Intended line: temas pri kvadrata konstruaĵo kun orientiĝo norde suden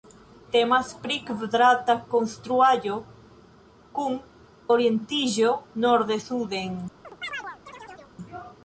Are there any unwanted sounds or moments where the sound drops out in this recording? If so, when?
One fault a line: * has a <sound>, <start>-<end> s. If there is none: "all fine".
* has a chirp, 7.0-8.2 s